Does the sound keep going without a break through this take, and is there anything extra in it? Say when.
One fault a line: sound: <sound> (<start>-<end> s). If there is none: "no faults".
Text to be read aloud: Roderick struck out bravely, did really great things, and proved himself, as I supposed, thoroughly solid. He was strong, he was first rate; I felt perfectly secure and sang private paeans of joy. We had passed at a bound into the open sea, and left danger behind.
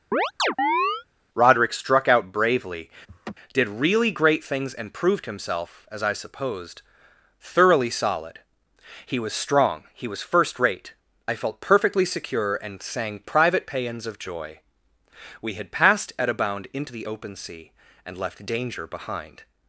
sound: chirp (0.1-1.0 s)
sound: laugh (3.1-3.3 s)